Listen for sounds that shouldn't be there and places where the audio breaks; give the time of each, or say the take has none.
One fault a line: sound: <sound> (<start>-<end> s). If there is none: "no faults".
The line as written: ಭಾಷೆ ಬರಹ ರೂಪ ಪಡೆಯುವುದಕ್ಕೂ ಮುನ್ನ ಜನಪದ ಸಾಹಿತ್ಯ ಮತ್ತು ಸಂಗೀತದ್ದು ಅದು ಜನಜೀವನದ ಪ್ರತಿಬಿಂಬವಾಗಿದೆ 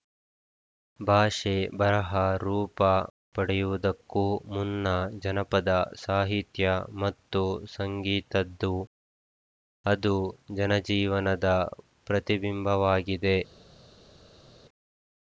no faults